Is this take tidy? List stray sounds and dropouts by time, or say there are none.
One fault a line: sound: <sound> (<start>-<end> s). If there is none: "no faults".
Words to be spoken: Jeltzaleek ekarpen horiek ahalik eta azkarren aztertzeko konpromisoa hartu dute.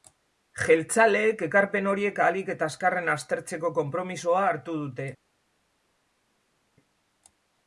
no faults